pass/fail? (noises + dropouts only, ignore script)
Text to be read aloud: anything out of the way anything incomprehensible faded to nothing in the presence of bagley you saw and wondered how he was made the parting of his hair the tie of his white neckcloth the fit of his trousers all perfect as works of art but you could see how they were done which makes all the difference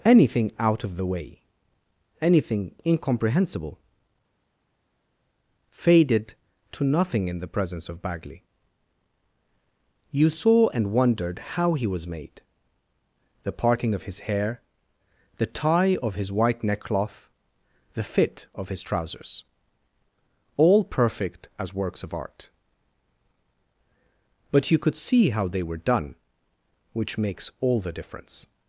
pass